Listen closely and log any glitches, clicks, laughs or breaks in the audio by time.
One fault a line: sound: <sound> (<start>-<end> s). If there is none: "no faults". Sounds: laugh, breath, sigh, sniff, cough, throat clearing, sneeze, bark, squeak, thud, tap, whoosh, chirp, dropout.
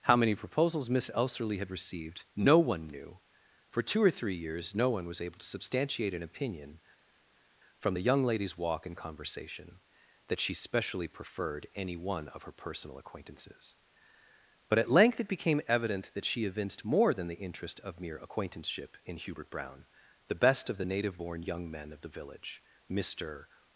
no faults